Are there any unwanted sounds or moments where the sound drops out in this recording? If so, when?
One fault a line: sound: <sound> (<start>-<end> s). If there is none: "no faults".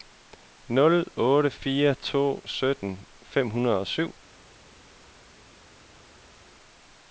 no faults